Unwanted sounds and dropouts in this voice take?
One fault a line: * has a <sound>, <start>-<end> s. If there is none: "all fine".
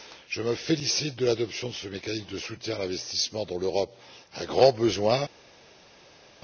all fine